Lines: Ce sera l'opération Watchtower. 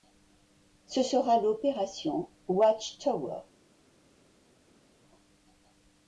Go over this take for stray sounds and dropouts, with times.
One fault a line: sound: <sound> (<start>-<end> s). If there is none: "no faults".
no faults